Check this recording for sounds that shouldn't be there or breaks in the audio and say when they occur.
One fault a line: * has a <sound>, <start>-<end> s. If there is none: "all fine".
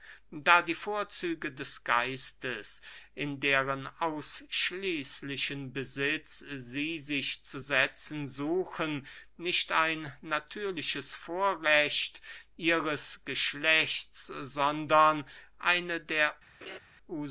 * has a laugh, 16.6-16.8 s